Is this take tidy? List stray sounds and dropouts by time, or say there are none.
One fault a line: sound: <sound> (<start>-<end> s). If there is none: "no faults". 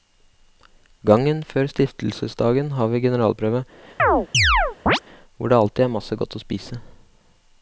sound: chirp (4.0-5.0 s)